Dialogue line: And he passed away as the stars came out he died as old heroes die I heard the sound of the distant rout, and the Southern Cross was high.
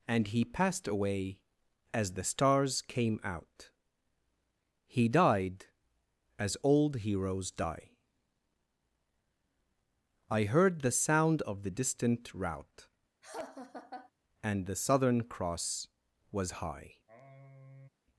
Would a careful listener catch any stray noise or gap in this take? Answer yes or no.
yes